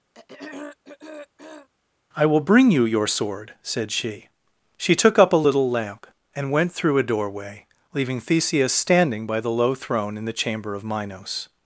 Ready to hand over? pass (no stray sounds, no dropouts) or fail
fail